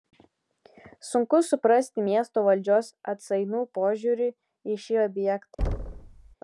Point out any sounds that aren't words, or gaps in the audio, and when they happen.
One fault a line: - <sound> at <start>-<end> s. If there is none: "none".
- thud at 5.6-6.4 s